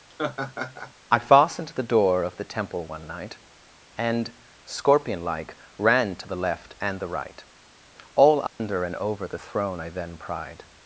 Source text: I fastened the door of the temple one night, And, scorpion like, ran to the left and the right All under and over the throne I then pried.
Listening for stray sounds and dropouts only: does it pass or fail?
fail